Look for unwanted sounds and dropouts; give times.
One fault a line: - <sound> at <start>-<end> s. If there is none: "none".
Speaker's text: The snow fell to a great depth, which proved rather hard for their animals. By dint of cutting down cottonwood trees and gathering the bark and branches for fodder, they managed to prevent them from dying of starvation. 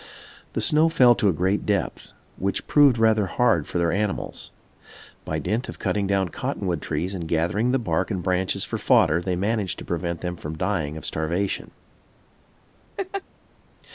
- laugh at 13.0-13.2 s